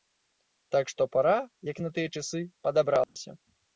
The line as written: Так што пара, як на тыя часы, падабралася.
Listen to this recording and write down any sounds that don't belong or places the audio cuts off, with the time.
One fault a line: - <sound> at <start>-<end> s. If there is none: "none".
- dropout at 3.0-3.2 s